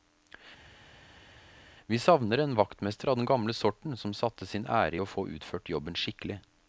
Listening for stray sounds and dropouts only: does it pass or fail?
pass